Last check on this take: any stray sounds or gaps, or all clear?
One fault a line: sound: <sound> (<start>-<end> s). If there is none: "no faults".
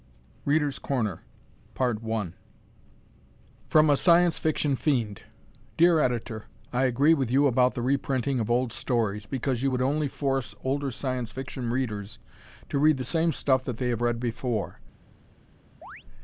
sound: chirp (15.8-16.0 s)